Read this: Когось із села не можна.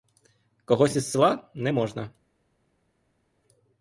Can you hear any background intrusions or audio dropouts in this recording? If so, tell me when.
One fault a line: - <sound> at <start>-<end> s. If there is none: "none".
none